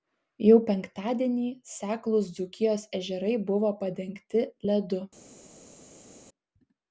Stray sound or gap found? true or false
false